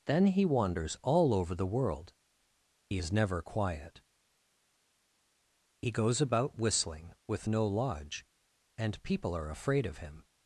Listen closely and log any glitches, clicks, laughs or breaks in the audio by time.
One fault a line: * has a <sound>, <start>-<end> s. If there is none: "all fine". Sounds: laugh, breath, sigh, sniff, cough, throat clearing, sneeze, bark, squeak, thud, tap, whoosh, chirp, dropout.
all fine